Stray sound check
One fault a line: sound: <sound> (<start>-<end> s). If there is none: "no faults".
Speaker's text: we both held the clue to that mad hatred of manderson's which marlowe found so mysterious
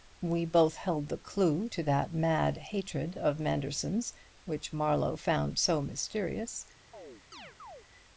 sound: chirp (6.9-7.9 s)